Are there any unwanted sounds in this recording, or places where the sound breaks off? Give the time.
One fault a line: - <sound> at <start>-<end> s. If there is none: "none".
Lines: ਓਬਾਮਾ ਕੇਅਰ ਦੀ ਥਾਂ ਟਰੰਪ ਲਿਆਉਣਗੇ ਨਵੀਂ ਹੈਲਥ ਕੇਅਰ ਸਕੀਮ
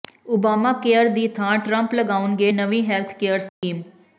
- dropout at 3.5-3.6 s